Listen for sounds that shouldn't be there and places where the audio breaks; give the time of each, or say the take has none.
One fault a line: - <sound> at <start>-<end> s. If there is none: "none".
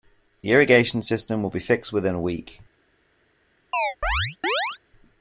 - chirp at 3.7-4.8 s